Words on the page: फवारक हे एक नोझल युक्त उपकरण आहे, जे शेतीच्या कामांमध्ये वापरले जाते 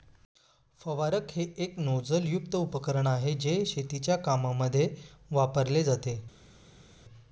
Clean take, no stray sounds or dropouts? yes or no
yes